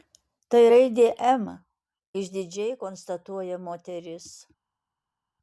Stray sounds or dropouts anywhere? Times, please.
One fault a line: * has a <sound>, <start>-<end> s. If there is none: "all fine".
all fine